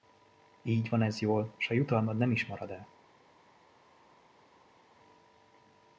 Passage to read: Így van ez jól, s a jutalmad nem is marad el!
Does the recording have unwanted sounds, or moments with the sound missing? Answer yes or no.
no